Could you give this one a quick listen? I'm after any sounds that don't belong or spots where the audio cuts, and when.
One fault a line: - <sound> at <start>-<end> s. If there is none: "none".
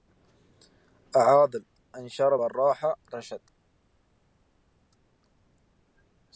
none